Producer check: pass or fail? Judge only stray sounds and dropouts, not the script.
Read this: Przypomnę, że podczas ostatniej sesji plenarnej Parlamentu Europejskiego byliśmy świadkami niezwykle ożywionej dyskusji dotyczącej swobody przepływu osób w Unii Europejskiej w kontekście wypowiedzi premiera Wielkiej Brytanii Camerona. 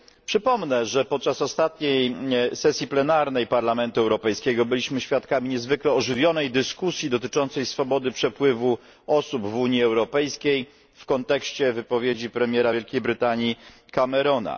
pass